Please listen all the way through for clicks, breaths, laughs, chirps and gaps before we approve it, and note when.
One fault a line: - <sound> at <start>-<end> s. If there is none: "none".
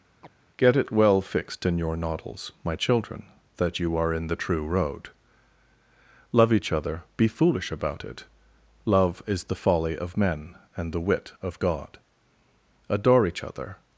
- chirp at 0.2-0.3 s